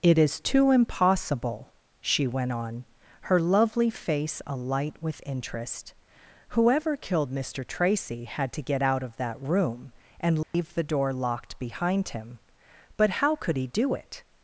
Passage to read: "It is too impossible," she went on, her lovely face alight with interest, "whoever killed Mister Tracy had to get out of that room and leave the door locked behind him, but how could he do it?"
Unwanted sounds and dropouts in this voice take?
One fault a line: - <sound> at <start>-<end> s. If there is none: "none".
- dropout at 10.4-10.5 s